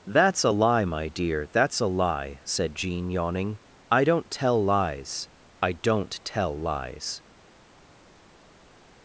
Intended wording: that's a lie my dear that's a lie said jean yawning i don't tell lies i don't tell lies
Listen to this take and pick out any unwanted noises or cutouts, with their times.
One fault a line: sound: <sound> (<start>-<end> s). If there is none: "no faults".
no faults